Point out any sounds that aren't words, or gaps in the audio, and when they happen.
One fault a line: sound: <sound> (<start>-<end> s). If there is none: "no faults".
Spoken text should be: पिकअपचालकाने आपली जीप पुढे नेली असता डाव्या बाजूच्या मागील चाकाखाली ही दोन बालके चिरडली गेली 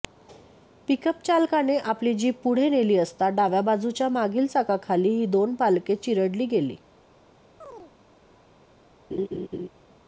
sound: chirp (7.6-7.9 s)
sound: laugh (9.1-9.7 s)